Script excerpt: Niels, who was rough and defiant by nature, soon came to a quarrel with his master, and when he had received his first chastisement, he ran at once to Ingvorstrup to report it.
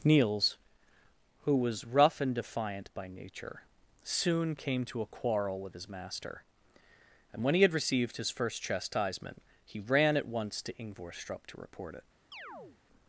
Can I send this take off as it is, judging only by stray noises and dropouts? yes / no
no